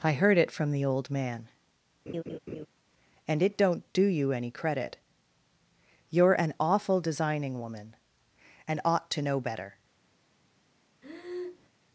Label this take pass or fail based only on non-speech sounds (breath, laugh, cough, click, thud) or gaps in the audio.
fail